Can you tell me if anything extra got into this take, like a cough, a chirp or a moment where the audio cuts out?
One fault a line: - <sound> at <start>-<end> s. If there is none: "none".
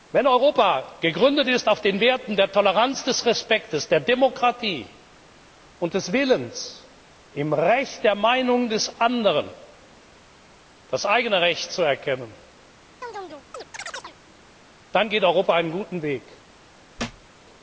- chirp at 13.0-14.2 s
- thud at 17.0-17.3 s